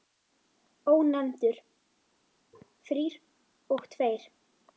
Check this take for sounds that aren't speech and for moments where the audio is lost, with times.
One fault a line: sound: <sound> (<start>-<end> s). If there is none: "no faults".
no faults